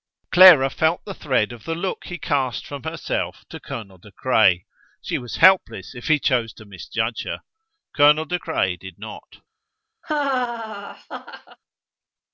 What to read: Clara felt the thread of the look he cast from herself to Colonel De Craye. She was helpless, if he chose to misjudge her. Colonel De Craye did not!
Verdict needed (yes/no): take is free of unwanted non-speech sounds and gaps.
no